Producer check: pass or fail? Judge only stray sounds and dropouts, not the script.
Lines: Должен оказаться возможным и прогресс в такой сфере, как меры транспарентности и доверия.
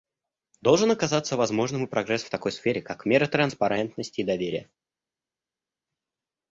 pass